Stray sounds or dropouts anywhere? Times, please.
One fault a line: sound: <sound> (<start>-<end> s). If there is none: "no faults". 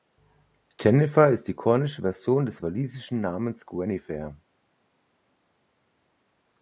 no faults